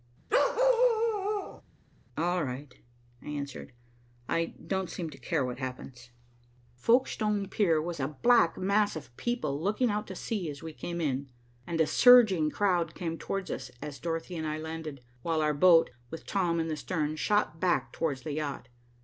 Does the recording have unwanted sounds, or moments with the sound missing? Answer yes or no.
yes